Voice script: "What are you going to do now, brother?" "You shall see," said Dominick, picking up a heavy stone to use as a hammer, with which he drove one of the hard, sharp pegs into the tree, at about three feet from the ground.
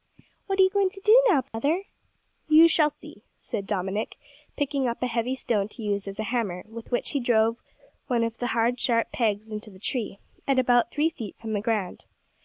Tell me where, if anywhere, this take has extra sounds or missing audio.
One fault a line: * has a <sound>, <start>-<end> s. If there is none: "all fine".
* has a dropout, 1.5-1.5 s